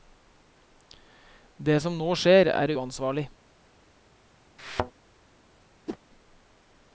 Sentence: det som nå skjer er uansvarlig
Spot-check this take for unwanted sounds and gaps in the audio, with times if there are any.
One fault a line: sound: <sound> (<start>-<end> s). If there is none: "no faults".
sound: thud (4.6-4.9 s)
sound: whoosh (5.9-6.0 s)